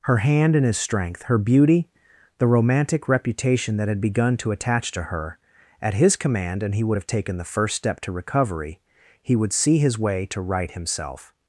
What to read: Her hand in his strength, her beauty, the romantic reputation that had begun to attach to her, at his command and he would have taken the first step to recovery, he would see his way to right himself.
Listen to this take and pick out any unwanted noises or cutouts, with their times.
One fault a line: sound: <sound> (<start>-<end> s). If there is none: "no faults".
no faults